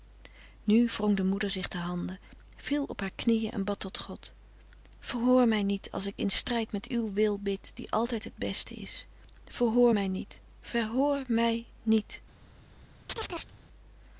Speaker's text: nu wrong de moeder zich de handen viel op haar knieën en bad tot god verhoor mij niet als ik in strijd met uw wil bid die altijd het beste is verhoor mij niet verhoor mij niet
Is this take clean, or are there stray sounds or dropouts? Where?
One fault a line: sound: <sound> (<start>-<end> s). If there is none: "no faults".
sound: chirp (13.1-13.5 s)